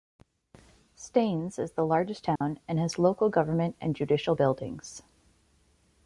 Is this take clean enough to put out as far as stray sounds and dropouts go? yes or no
no